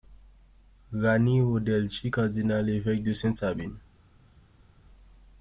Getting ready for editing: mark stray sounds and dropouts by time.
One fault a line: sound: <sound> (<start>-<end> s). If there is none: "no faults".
no faults